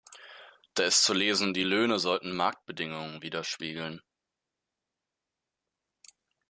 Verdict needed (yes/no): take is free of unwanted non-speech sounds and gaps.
yes